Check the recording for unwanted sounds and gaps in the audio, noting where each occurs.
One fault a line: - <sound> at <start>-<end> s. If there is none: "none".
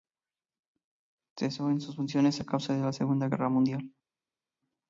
none